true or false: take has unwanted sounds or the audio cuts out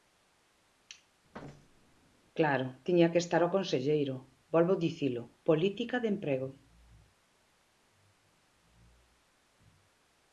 true